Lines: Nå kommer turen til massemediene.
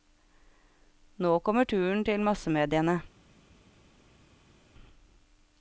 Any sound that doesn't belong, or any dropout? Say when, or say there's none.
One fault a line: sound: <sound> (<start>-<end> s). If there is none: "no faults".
no faults